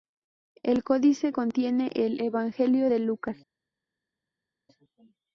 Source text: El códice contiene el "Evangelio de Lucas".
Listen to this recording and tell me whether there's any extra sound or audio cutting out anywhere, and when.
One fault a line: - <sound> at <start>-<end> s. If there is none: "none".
none